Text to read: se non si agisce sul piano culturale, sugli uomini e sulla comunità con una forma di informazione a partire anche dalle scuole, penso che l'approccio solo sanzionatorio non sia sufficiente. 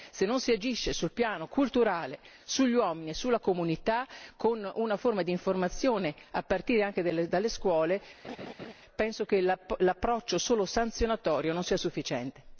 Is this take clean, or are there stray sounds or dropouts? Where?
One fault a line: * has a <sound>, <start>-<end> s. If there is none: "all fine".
* has a laugh, 8.2-8.7 s